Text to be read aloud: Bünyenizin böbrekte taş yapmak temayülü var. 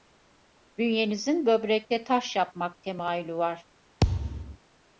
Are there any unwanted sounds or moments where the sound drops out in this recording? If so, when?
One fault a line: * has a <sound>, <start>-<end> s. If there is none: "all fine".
* has a thud, 4.0-4.6 s